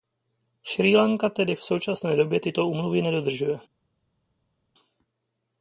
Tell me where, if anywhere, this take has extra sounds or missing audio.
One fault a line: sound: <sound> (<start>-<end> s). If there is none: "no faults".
no faults